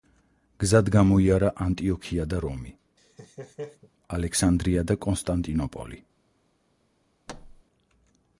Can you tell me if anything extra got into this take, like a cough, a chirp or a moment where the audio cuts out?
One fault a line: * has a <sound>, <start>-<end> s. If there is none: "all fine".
* has a laugh, 3.0-3.9 s
* has a thud, 7.3-7.6 s